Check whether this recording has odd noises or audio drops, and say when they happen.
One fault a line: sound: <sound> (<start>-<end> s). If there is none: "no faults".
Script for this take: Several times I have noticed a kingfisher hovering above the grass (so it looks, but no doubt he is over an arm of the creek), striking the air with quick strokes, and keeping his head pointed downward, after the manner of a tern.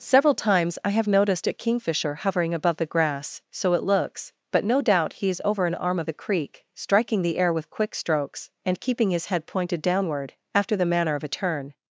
no faults